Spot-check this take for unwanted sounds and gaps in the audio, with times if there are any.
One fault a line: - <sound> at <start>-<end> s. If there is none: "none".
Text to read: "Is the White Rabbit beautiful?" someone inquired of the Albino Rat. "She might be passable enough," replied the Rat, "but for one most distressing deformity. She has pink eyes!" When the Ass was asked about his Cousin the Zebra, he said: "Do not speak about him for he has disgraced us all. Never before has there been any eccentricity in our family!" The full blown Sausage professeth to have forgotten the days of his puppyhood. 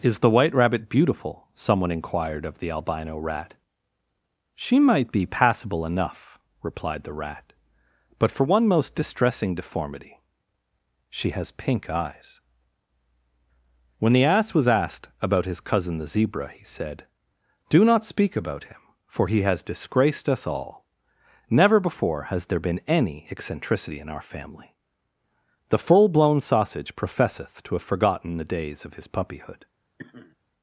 - sniff at 30.0-30.4 s